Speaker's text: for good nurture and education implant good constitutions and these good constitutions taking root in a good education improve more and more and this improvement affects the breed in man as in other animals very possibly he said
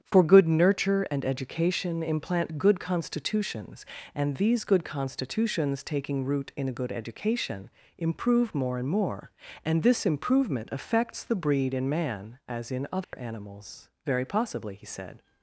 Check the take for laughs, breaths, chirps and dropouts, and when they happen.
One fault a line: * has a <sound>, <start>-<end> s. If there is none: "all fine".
* has a dropout, 13.0-13.1 s